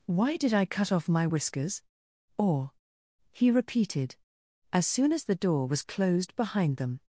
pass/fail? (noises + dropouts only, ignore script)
pass